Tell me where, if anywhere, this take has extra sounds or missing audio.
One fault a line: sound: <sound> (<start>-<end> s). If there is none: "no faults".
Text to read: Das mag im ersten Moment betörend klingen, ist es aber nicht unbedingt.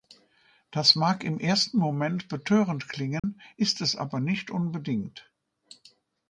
sound: dropout (3.2-3.2 s)